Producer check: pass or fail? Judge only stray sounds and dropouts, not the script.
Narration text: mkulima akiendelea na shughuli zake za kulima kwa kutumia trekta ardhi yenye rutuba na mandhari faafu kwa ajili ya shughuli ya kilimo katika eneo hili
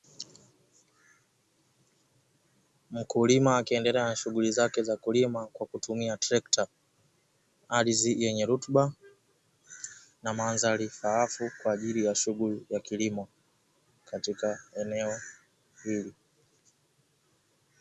pass